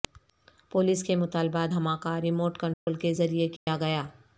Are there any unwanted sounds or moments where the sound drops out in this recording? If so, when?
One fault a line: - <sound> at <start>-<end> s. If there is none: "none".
- dropout at 2.7-2.9 s
- dropout at 3.6-3.7 s